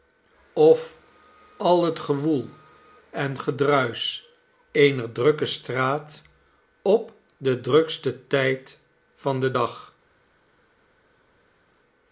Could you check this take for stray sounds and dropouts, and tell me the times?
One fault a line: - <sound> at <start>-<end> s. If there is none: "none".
none